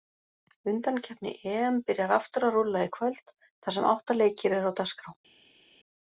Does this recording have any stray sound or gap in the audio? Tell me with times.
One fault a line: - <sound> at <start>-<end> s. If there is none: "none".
none